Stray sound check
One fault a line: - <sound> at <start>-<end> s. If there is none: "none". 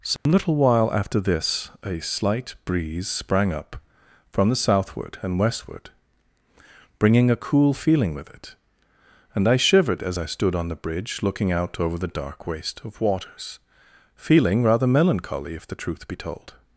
- dropout at 0.2-0.3 s